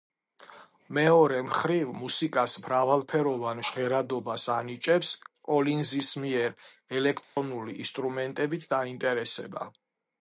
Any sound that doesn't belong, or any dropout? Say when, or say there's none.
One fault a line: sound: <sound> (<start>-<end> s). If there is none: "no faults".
sound: dropout (7.2-7.4 s)